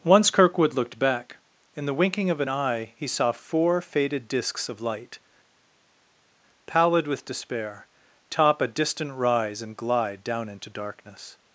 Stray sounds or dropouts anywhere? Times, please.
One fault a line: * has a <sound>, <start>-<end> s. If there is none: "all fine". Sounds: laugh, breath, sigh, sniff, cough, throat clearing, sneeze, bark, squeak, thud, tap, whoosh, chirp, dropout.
all fine